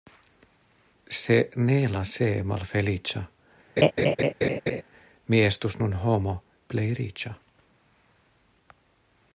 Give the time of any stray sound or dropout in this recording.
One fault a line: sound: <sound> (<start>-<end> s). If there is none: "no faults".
sound: laugh (3.8-4.8 s)